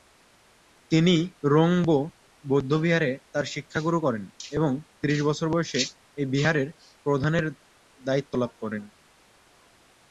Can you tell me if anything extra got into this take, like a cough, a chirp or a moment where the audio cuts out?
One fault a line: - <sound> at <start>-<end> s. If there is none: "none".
none